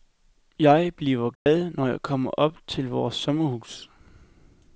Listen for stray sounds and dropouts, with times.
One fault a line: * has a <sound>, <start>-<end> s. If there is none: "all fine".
* has a dropout, 1.4-1.5 s